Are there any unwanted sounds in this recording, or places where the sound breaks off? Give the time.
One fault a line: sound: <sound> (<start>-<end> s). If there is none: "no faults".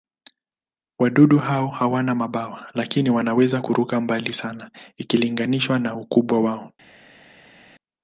no faults